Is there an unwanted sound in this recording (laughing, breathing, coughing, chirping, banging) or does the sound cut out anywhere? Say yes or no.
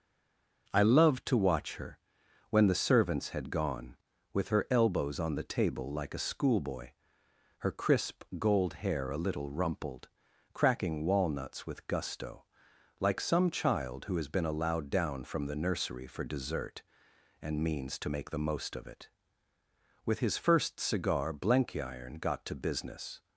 no